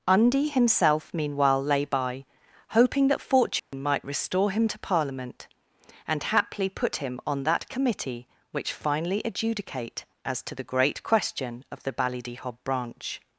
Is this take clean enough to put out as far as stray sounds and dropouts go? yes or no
no